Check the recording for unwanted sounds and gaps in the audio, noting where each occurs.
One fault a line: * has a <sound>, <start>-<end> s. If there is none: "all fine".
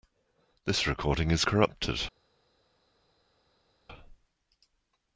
all fine